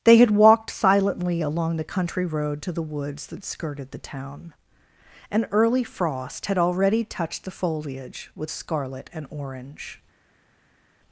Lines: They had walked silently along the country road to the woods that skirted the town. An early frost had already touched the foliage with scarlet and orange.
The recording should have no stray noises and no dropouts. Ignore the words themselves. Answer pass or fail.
pass